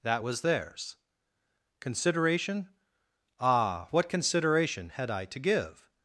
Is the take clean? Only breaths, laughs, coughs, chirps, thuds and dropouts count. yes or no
yes